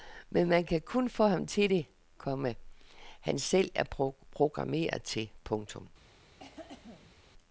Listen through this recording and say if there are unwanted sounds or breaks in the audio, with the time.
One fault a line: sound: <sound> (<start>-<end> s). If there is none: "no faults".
sound: cough (6.4-7.1 s)